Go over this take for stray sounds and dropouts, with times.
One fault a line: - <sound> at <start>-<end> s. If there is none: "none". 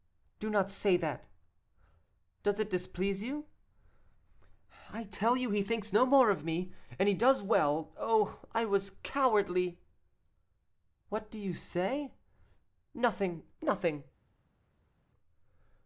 none